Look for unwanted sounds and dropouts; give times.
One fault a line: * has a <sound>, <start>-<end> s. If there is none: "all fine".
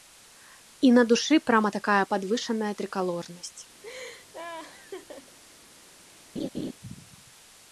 * has a laugh, 3.8-5.4 s
* has a laugh, 6.4-6.7 s